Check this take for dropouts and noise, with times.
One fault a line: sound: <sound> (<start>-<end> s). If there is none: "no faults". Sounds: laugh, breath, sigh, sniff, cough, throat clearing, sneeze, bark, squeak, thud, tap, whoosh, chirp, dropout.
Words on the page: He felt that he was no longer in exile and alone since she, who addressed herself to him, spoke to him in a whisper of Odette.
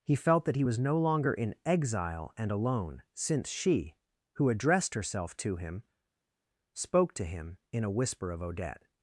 no faults